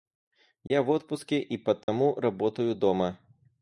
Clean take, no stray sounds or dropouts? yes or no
no